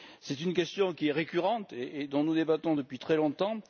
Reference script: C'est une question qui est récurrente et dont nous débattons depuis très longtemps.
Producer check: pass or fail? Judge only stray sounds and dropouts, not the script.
pass